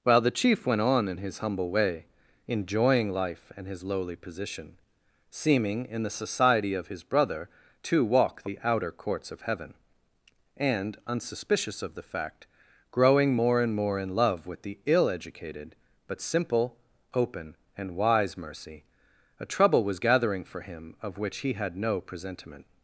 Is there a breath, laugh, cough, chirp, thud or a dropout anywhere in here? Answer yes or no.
no